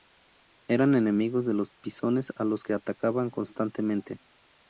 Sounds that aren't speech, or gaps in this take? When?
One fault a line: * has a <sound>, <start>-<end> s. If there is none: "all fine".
all fine